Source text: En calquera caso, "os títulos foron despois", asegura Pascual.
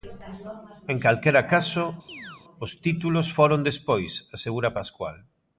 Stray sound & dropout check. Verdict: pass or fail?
fail